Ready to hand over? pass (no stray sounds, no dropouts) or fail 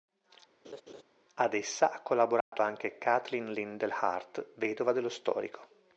fail